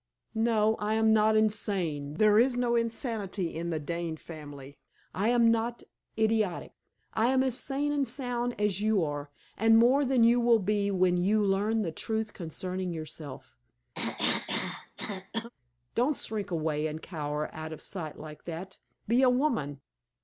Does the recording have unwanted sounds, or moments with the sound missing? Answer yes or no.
yes